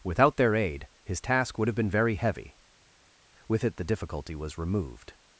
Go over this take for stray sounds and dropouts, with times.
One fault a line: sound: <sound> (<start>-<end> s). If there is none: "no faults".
no faults